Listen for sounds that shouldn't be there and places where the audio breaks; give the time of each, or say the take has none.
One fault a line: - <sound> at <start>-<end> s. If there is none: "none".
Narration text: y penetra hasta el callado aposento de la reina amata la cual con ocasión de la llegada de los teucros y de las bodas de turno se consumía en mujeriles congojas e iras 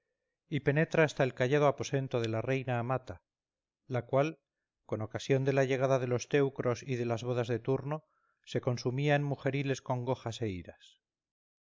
none